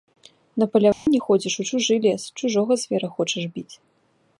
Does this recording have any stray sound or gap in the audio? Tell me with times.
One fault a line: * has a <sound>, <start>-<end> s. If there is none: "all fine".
* has a dropout, 0.9-1.1 s